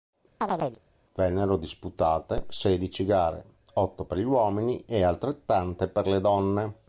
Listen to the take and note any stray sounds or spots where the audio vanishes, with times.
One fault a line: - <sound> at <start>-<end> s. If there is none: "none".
- chirp at 0.4-0.8 s